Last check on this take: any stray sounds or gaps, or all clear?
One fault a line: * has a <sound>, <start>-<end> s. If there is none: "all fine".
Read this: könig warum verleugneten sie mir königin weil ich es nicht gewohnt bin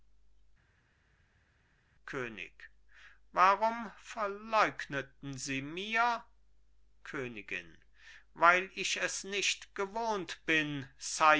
all fine